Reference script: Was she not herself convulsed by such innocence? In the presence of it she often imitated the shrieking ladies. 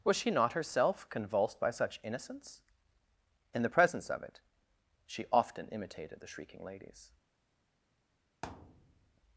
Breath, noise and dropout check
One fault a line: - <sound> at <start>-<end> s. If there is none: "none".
- thud at 8.4-9.2 s